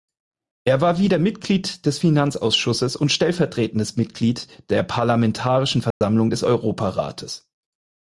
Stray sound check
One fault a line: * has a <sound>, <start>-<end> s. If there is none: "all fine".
* has a dropout, 5.9-6.0 s